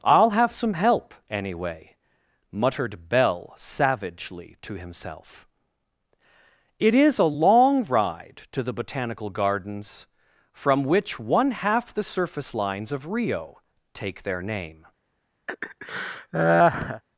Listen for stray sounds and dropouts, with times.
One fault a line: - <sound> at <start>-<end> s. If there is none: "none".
- laugh at 15.5-17.0 s